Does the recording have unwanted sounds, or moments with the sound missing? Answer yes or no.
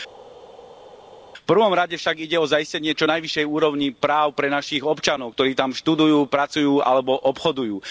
no